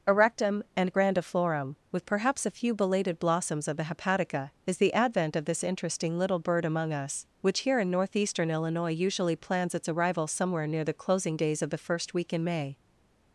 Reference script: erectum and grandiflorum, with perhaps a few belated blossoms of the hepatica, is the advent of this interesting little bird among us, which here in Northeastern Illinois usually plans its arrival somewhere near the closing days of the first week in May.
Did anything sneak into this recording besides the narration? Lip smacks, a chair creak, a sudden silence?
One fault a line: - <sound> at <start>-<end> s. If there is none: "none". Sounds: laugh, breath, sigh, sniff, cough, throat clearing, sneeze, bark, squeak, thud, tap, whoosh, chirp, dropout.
none